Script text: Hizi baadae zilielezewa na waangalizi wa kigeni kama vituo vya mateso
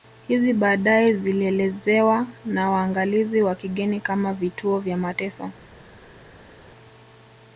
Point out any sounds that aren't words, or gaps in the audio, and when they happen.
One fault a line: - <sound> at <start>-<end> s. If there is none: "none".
none